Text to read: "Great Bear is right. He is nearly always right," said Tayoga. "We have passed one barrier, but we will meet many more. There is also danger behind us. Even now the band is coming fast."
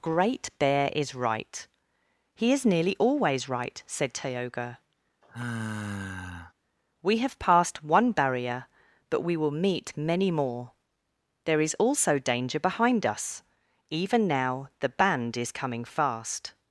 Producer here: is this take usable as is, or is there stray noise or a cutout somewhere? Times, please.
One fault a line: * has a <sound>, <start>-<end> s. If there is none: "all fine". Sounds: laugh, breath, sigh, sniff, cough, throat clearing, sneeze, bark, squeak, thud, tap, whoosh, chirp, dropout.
* has a sigh, 5.2-6.5 s